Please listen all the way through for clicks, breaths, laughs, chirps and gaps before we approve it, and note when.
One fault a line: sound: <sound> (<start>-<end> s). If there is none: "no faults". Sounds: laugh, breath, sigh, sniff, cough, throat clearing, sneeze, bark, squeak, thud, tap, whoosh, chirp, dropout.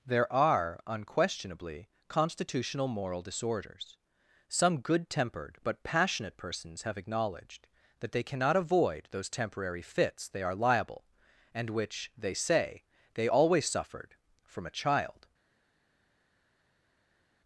no faults